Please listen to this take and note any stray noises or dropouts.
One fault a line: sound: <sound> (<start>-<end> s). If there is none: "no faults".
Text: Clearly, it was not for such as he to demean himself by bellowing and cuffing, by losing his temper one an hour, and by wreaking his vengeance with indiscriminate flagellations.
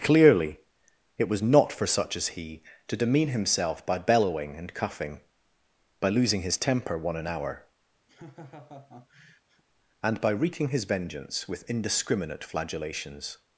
sound: laugh (8.1-9.6 s)